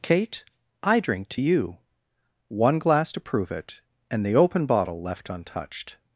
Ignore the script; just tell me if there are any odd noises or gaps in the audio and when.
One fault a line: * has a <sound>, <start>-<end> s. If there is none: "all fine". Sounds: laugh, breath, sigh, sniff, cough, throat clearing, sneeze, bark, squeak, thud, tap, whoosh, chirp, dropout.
all fine